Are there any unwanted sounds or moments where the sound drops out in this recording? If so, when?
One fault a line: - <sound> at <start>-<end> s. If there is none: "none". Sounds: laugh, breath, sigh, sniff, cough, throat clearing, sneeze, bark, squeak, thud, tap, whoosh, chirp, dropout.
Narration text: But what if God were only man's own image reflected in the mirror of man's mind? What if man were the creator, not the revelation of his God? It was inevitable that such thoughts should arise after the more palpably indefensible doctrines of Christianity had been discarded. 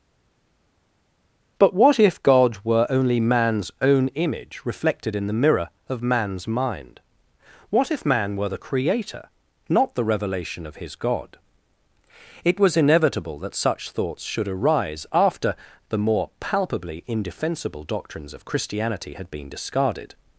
none